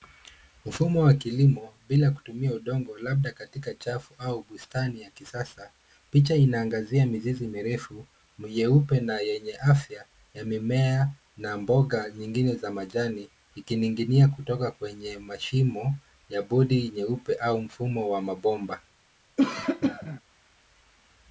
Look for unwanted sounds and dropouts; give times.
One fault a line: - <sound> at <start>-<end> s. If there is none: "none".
- cough at 19.4-20.2 s